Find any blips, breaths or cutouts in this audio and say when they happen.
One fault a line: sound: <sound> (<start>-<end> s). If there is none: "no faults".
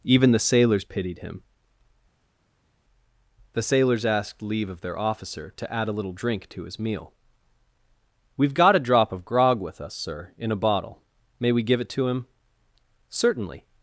no faults